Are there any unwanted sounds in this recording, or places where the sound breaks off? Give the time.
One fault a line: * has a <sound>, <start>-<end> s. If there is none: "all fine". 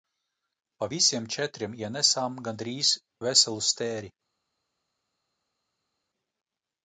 all fine